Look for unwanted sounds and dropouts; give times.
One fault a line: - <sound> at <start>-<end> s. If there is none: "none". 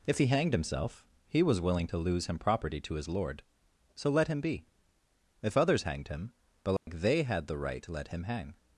- dropout at 6.8-6.9 s